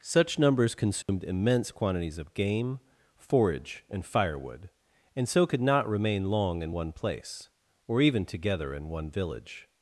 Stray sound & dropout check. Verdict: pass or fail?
fail